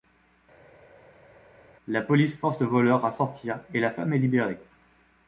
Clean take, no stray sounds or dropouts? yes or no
yes